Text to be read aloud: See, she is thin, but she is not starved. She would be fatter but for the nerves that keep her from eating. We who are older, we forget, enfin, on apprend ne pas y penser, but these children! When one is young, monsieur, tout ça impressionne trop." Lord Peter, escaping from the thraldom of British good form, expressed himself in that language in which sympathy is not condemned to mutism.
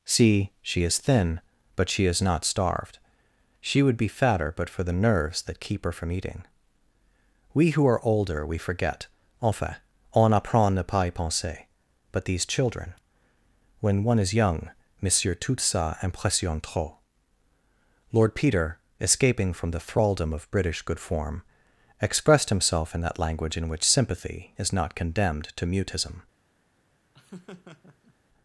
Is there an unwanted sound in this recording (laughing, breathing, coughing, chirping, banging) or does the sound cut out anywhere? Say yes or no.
yes